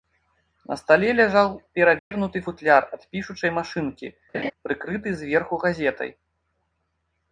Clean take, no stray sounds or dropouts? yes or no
no